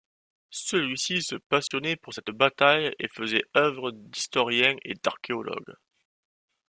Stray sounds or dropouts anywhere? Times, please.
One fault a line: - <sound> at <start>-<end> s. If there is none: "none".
- dropout at 1.7-1.7 s